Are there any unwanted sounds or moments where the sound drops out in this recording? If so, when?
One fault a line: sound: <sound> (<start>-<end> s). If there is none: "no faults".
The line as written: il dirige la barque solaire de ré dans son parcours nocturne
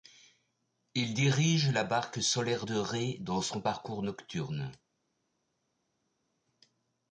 no faults